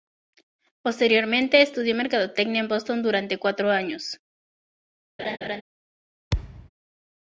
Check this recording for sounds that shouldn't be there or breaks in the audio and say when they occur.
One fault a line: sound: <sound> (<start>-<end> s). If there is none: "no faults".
sound: laugh (5.2-5.6 s)
sound: thud (6.3-6.7 s)